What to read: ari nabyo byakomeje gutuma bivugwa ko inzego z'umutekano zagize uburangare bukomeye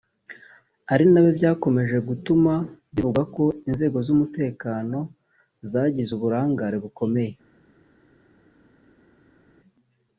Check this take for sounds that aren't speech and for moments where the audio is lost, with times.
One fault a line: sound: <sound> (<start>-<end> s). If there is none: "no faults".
no faults